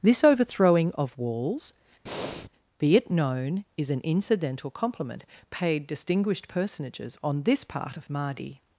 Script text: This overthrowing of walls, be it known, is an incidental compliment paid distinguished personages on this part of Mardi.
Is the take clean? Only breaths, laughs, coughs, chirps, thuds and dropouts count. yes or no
no